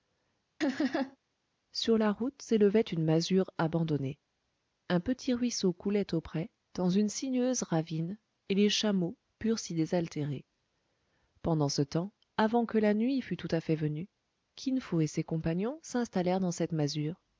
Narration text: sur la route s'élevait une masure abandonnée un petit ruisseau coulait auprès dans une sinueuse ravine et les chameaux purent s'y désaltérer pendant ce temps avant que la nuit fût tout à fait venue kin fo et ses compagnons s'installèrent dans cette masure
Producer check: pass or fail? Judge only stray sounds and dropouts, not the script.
fail